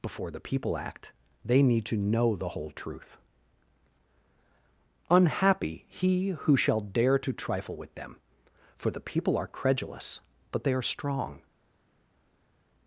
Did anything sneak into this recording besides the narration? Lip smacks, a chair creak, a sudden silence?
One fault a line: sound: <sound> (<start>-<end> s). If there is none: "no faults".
no faults